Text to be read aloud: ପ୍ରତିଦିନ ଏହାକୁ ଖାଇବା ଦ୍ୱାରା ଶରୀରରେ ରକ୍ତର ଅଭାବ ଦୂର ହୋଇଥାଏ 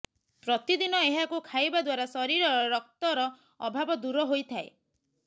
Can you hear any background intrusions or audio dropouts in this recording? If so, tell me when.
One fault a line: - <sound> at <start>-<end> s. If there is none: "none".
none